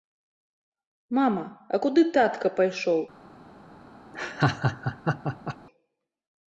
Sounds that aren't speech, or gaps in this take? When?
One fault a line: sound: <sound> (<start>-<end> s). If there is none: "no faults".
sound: laugh (4.1-5.6 s)